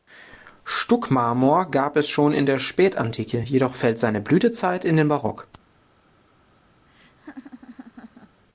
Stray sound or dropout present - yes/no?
yes